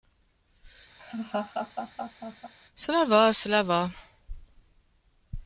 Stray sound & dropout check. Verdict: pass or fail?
fail